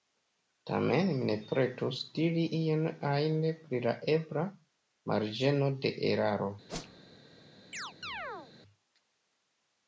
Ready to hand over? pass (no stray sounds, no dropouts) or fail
fail